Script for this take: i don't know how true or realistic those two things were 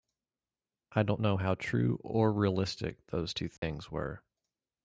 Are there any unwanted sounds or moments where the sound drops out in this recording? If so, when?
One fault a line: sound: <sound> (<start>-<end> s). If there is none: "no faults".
sound: dropout (3.6-3.6 s)